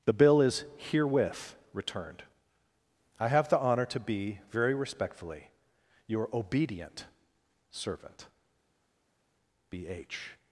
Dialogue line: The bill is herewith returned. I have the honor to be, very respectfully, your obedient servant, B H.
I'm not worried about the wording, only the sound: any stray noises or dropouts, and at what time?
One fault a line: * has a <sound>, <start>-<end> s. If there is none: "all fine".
all fine